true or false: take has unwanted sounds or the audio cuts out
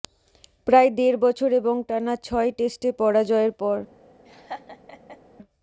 true